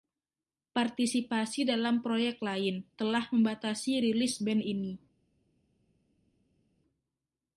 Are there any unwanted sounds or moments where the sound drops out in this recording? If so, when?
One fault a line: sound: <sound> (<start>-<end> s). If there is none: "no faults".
no faults